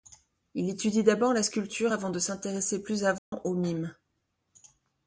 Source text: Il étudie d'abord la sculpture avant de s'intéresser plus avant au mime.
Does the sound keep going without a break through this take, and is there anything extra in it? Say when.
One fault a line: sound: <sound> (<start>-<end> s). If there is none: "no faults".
sound: dropout (3.2-3.3 s)